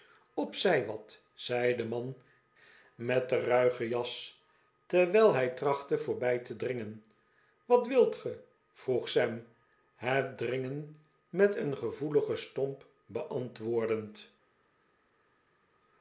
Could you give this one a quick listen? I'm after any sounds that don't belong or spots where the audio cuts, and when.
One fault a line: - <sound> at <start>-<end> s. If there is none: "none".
none